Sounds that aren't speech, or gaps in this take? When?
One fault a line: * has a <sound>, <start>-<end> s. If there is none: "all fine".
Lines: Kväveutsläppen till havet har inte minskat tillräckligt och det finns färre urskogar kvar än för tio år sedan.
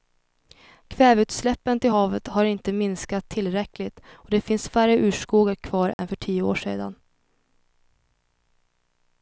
* has a dropout, 5.9-6.0 s